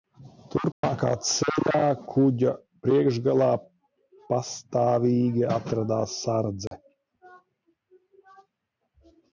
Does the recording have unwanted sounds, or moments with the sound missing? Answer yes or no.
yes